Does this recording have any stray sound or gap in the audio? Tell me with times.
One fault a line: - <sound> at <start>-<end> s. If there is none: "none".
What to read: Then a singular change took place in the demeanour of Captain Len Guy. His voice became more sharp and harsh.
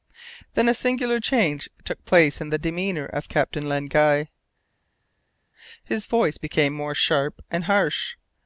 none